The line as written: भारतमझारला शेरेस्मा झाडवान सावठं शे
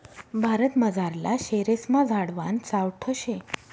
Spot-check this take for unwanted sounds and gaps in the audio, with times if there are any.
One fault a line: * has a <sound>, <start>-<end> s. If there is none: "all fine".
all fine